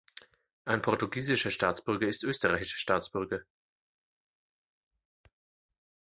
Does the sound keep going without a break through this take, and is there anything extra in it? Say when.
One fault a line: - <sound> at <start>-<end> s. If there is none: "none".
none